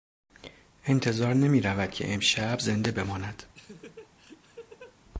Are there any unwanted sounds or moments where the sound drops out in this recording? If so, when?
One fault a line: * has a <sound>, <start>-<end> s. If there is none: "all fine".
* has a laugh, 3.5-5.0 s